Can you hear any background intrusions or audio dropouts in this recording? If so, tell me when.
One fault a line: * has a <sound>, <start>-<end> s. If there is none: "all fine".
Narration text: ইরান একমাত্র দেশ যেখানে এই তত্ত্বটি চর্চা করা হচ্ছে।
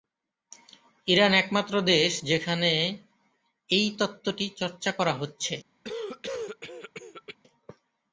* has a cough, 5.8-7.4 s